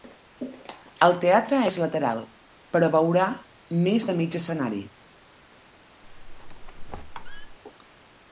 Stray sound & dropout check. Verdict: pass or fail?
fail